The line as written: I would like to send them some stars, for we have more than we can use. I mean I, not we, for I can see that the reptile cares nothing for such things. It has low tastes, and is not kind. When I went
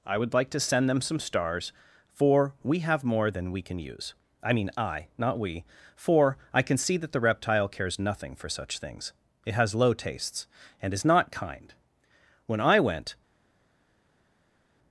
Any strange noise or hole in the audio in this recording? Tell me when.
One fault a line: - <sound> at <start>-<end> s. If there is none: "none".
none